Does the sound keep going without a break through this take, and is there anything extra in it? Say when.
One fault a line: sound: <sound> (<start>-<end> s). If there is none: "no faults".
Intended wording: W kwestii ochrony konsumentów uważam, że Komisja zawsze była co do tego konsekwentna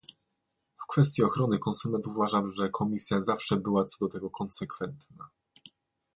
no faults